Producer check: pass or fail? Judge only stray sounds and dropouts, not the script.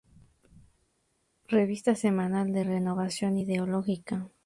pass